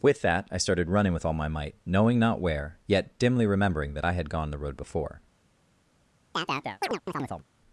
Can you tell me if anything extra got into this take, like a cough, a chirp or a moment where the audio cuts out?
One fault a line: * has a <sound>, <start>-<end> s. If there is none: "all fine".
* has a chirp, 6.3-7.4 s